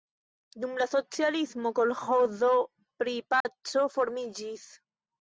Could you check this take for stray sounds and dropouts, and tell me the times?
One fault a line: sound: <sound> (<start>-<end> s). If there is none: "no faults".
sound: dropout (3.4-3.5 s)